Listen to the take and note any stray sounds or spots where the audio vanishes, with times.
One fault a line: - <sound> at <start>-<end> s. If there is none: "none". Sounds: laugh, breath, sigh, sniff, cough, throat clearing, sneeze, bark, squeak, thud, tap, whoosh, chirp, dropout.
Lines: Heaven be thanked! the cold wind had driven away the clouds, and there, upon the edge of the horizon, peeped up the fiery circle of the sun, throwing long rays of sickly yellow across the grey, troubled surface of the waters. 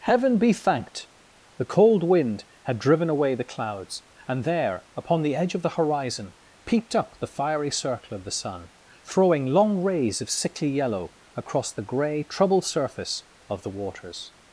none